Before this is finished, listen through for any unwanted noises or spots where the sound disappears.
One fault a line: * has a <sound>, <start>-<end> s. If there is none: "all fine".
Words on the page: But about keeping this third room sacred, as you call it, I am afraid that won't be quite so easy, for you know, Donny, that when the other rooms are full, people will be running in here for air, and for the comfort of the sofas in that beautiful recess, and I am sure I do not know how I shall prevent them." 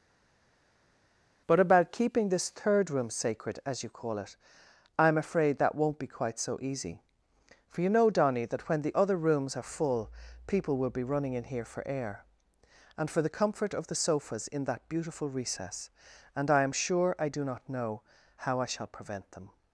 all fine